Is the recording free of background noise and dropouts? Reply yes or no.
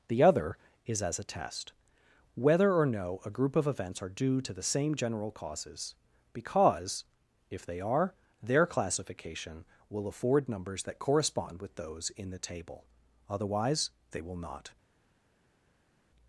yes